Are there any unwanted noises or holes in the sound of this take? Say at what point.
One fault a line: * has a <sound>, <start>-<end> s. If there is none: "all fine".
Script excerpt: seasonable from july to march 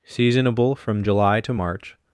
all fine